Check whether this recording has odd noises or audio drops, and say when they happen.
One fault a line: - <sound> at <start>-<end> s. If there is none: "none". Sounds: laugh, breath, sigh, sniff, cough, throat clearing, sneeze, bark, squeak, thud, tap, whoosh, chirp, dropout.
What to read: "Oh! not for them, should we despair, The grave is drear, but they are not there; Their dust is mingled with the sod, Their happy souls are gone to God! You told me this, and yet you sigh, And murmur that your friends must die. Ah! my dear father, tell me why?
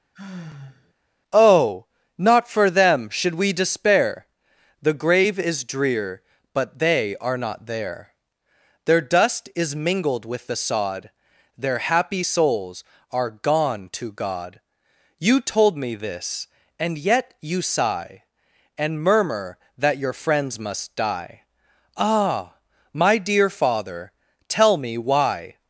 - sigh at 0.1-0.9 s